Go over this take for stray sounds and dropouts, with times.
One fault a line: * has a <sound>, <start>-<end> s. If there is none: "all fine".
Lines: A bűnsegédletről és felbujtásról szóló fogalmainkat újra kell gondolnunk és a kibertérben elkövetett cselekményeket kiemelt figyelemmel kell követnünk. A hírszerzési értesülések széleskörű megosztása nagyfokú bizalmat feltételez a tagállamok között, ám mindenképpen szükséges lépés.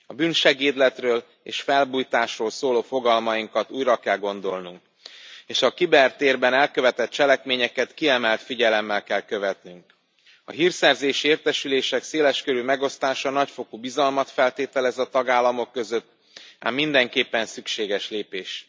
all fine